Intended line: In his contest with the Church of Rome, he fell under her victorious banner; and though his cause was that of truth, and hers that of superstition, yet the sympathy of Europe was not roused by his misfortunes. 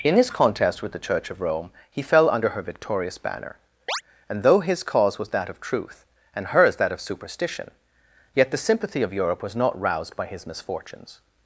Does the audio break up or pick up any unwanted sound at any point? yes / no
yes